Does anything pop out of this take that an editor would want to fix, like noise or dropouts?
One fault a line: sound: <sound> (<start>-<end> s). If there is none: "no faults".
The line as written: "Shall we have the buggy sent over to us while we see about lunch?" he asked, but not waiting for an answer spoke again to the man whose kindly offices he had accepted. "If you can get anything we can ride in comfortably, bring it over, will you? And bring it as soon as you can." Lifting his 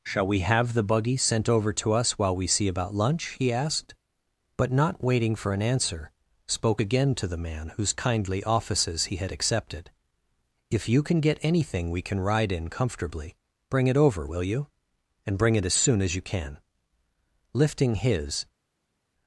no faults